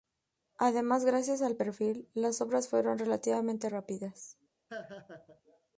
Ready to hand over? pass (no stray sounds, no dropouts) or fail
fail